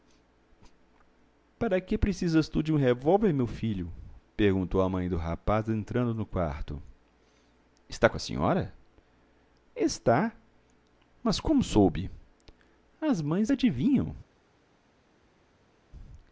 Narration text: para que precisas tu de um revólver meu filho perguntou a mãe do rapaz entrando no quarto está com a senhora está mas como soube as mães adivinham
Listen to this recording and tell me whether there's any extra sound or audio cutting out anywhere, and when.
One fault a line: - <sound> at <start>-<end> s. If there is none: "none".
none